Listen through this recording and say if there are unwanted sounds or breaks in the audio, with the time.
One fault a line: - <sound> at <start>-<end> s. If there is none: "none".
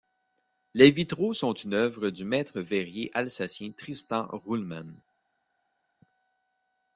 none